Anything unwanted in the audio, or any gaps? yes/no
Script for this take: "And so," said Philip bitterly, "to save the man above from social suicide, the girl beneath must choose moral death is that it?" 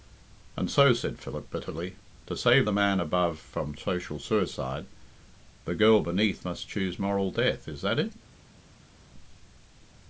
no